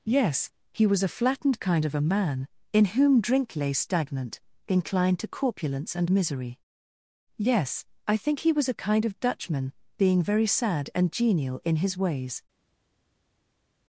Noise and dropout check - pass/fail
pass